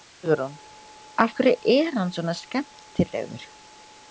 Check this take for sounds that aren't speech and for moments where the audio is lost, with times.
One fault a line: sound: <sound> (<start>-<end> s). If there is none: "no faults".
no faults